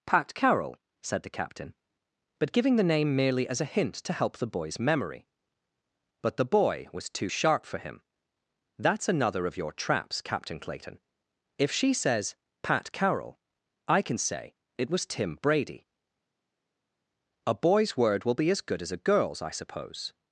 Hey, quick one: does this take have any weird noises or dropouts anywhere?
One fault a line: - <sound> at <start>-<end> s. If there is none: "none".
none